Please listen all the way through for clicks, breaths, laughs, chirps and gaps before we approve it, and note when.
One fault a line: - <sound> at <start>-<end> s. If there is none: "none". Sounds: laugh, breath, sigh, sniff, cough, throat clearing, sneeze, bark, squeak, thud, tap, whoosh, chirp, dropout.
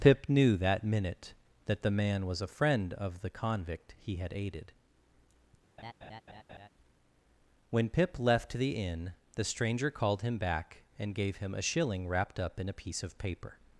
- laugh at 5.8-6.7 s